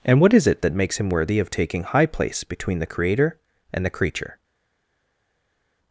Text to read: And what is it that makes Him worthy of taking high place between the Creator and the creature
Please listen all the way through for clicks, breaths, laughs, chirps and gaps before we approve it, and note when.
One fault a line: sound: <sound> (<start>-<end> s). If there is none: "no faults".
no faults